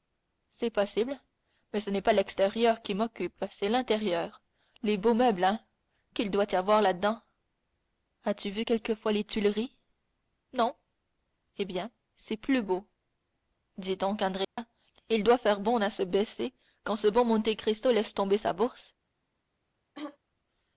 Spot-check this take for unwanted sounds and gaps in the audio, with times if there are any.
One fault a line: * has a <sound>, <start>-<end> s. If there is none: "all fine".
* has a dropout, 14.4-14.6 s
* has a throat clearing, 19.9-20.2 s